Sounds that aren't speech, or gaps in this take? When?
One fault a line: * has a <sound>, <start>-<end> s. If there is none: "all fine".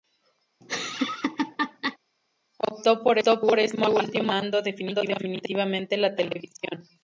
* has a laugh, 0.6-2.0 s